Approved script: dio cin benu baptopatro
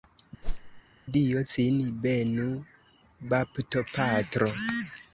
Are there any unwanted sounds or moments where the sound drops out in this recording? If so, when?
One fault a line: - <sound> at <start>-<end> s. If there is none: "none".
- whoosh at 0.4-0.8 s